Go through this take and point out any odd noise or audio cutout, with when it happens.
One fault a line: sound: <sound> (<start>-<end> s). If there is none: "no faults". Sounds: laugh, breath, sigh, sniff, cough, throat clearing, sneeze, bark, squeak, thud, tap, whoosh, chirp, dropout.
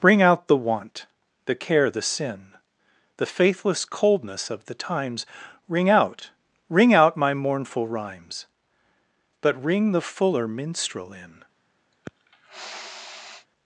sound: sniff (11.9-13.5 s)